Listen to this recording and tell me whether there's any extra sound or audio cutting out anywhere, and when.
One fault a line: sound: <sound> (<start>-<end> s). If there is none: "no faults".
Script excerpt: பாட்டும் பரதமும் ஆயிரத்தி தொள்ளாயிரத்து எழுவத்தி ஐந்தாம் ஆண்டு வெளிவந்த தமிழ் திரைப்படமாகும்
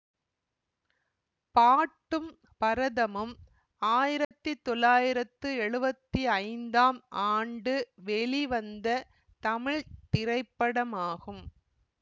sound: dropout (4.2-4.3 s)